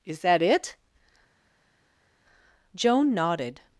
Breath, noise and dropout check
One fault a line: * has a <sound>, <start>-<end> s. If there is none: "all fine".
all fine